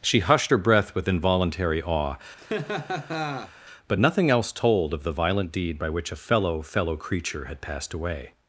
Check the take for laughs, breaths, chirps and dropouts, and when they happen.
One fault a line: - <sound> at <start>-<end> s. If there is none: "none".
- laugh at 2.4-3.5 s